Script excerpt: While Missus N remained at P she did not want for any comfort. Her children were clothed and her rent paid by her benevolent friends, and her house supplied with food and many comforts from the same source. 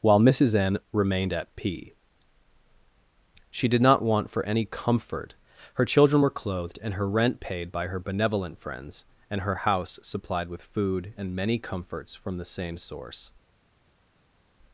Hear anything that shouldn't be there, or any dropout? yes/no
no